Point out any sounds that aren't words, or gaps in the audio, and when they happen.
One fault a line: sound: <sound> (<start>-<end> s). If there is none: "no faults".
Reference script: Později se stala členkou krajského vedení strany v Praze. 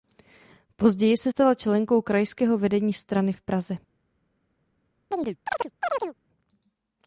sound: chirp (5.1-6.2 s)